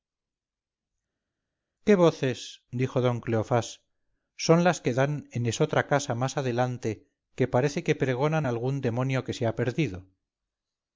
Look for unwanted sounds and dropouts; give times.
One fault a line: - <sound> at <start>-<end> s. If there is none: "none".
none